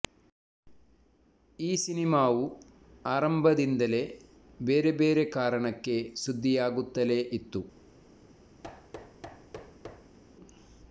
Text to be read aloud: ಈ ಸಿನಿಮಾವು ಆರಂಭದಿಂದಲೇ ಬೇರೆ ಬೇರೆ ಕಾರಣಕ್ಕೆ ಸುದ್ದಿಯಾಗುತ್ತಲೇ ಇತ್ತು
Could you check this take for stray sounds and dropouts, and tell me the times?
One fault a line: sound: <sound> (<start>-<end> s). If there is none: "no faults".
sound: thud (8.6-10.2 s)